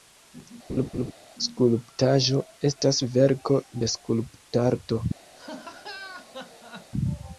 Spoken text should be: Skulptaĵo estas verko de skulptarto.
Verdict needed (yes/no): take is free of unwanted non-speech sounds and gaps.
no